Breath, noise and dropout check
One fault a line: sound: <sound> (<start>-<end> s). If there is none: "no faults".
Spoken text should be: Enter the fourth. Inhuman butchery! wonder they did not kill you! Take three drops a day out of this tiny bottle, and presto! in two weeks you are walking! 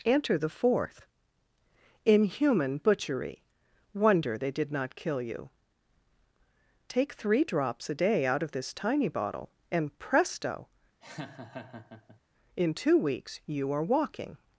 sound: laugh (11.0-12.2 s)